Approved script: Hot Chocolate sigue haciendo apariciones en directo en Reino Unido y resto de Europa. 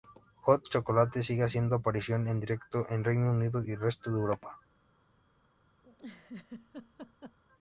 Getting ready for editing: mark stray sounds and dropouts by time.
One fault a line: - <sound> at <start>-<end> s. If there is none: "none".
- laugh at 5.8-7.4 s